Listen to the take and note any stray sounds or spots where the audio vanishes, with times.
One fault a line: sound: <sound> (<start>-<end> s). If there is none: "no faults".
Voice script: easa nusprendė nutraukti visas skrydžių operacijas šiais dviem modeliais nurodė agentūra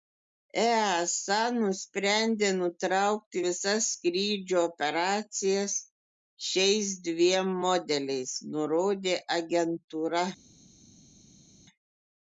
no faults